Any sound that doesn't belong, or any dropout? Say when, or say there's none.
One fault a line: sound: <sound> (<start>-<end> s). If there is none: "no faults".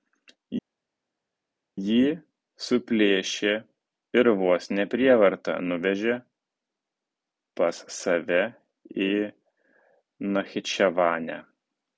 no faults